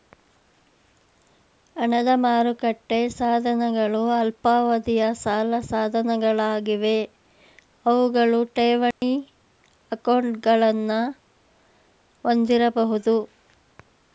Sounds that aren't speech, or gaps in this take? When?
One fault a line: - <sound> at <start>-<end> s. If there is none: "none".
- dropout at 8.9-9.0 s